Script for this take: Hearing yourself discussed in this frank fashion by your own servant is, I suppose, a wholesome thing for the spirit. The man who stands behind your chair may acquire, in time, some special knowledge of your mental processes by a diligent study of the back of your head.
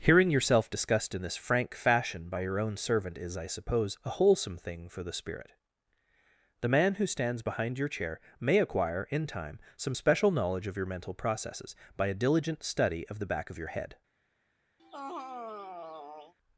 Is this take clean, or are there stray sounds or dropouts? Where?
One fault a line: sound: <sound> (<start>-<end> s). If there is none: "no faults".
sound: sigh (14.8-16.3 s)